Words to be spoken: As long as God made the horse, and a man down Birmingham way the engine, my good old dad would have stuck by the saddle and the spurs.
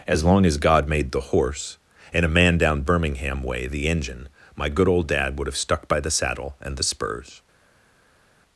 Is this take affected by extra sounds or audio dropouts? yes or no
no